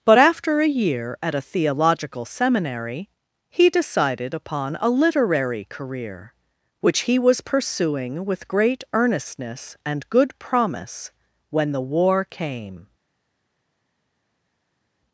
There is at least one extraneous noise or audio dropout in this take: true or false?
false